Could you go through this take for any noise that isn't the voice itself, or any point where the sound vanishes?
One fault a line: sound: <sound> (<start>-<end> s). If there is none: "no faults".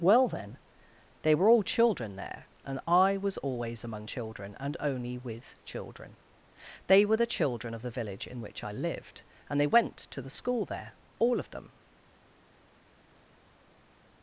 no faults